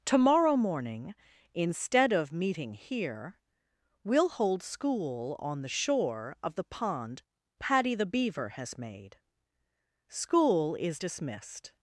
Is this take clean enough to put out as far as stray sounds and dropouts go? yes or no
yes